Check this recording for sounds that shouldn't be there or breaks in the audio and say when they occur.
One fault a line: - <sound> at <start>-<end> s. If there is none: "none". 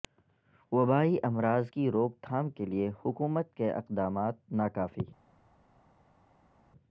none